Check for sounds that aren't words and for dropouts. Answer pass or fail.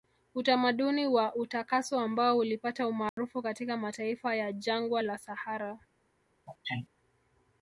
fail